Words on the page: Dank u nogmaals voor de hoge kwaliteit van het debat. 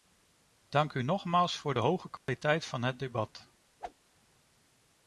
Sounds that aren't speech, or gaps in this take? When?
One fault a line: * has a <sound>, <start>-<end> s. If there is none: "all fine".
* has a dropout, 2.2-2.3 s
* has a whoosh, 3.8-3.9 s